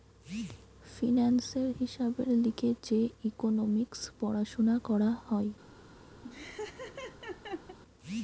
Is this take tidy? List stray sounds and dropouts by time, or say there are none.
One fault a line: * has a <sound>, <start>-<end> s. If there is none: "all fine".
* has a laugh, 6.2-7.8 s